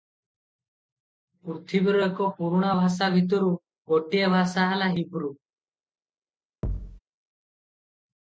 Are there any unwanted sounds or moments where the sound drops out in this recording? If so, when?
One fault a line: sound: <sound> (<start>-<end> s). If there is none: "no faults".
sound: thud (6.6-7.0 s)